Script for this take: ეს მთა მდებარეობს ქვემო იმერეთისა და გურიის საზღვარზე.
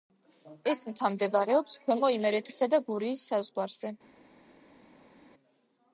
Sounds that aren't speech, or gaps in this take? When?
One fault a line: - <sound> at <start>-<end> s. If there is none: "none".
none